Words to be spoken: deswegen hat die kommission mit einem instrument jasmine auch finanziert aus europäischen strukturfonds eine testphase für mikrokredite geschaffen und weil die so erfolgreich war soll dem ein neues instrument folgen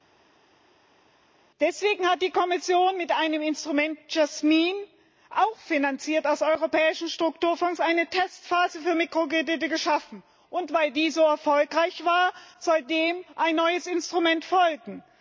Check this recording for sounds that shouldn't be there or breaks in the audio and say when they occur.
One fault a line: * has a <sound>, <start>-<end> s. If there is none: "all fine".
all fine